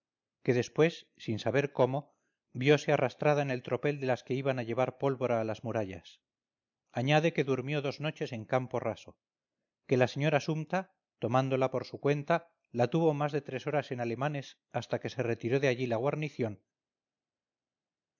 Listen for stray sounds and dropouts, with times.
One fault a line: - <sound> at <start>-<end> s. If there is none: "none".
none